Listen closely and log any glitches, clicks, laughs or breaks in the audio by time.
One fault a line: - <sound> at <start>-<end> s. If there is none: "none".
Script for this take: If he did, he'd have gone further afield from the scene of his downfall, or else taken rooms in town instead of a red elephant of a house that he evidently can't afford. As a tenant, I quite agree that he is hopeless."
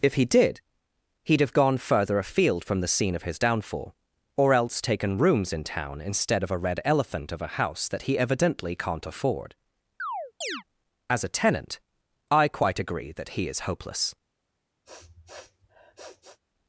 - chirp at 10.0-10.6 s
- sniff at 14.8-16.4 s